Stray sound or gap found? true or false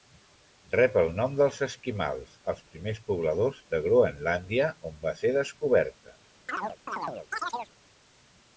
true